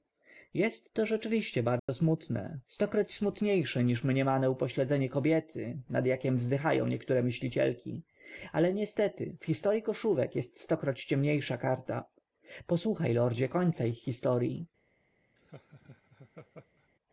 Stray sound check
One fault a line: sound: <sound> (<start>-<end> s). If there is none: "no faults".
sound: dropout (1.8-1.9 s)
sound: laugh (15.4-16.9 s)